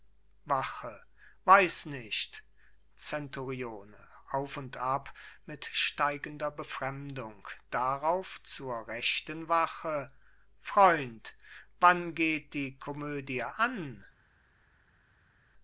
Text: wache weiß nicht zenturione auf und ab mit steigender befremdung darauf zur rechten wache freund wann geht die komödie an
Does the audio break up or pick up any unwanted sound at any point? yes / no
no